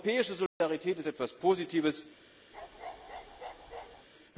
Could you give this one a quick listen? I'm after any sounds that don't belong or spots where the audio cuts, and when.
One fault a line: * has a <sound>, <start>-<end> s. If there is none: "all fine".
* has a dropout, 0.5-0.6 s
* has a bark, 2.5-4.1 s